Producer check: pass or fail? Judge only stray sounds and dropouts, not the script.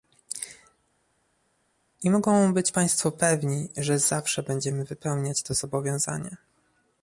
pass